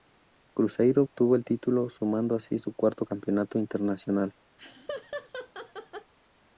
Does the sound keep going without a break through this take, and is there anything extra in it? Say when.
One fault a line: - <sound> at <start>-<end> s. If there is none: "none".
- laugh at 4.6-6.1 s